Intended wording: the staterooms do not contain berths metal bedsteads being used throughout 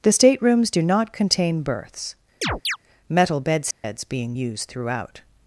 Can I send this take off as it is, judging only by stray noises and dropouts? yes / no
no